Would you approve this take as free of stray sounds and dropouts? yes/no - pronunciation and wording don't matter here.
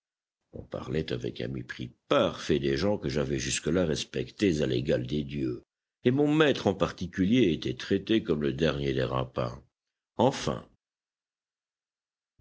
yes